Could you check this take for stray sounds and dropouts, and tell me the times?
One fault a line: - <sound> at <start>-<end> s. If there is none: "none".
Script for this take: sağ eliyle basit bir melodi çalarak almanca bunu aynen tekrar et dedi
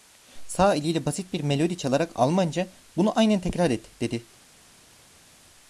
none